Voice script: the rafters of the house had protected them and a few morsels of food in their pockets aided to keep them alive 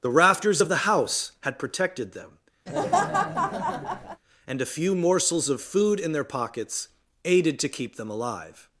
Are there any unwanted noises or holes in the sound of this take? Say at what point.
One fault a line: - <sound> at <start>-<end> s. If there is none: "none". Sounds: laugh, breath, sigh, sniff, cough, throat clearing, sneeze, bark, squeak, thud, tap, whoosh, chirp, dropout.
- laugh at 2.7-4.2 s